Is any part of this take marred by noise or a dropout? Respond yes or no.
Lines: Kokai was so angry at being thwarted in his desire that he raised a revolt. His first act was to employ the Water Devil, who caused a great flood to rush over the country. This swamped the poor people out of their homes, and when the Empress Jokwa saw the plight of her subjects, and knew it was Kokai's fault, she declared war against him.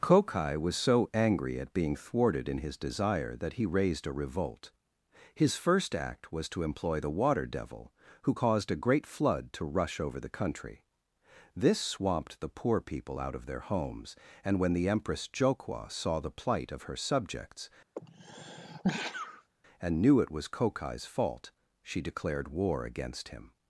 yes